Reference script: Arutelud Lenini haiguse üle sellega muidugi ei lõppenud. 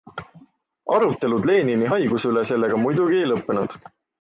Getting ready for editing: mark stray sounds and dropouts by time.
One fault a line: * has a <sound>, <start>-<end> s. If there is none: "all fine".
all fine